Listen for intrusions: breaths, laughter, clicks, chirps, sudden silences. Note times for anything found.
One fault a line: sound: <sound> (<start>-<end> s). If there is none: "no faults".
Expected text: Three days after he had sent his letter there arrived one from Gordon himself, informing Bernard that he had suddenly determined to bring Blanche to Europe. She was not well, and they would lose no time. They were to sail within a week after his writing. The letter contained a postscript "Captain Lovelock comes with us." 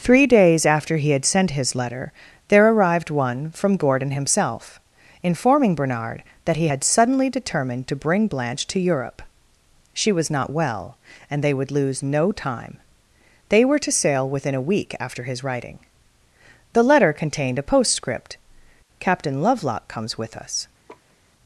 sound: laugh (20.9-21.2 s)